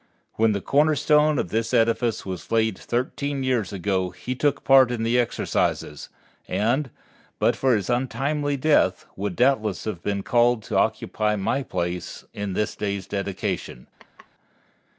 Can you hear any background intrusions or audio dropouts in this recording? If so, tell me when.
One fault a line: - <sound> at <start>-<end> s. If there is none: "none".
- laugh at 14.0-14.3 s